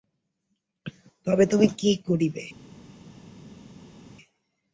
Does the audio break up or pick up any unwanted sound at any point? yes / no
no